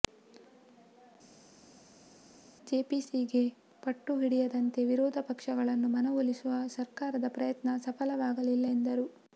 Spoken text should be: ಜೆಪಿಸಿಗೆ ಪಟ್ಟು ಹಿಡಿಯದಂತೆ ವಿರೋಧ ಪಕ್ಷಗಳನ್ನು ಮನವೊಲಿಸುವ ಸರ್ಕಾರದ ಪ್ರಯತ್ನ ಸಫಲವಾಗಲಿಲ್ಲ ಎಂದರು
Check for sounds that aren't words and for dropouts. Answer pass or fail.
pass